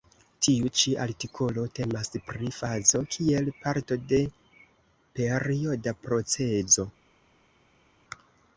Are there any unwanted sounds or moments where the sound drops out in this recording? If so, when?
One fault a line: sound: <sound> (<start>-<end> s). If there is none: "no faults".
no faults